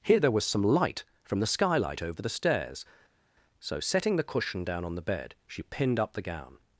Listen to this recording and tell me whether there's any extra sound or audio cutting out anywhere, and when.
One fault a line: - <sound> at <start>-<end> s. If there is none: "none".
none